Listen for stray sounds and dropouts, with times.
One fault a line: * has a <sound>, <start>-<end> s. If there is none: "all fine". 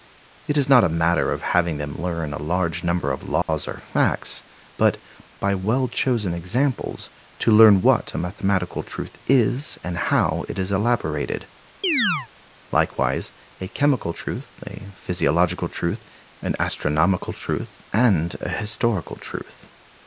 * has a dropout, 3.4-3.5 s
* has a chirp, 11.8-12.3 s